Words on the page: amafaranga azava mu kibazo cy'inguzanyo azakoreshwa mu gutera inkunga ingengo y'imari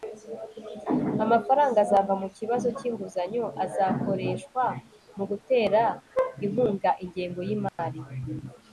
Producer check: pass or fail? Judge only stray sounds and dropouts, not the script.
fail